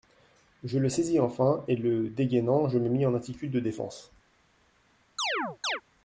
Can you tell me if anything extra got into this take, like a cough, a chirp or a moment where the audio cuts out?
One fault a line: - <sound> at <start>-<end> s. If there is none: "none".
- chirp at 5.2-5.8 s